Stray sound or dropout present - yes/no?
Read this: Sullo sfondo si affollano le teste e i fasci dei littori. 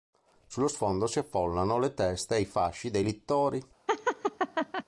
yes